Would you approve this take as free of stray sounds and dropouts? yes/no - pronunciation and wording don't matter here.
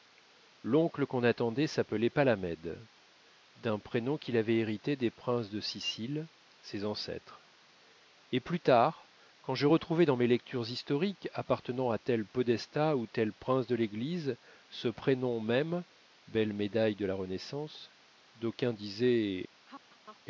no